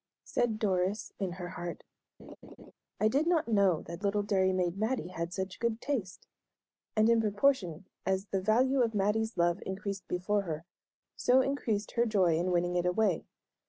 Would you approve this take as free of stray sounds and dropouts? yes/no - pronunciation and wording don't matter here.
no